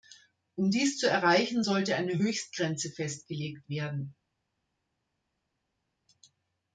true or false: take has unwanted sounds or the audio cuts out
false